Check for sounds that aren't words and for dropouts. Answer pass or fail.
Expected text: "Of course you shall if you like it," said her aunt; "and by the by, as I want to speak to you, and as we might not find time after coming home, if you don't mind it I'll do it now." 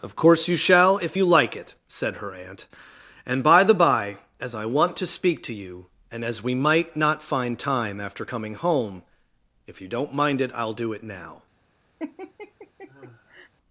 fail